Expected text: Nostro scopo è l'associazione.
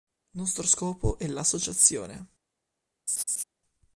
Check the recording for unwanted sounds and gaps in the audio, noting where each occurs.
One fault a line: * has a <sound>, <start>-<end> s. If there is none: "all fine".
* has a laugh, 3.1-3.4 s